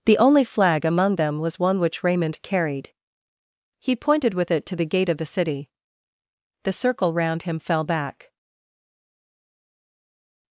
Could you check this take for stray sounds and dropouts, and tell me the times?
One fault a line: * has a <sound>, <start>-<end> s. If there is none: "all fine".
all fine